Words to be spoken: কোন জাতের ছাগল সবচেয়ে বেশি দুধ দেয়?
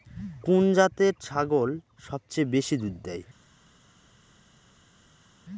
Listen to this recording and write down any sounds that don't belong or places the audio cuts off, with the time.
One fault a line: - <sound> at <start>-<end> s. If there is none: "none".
none